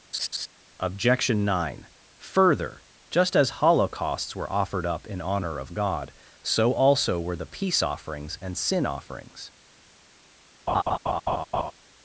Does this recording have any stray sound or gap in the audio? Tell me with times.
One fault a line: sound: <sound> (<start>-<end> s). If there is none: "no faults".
sound: laugh (0.1-0.5 s)
sound: laugh (10.7-11.7 s)